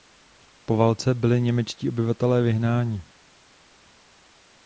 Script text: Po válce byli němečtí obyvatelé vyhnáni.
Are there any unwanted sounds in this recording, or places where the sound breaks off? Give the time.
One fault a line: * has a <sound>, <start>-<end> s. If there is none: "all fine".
all fine